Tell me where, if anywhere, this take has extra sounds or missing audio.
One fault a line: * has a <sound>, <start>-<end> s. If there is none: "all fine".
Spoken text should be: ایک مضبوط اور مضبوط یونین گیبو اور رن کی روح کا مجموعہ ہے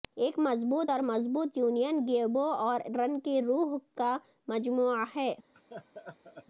* has a laugh, 5.5-6.5 s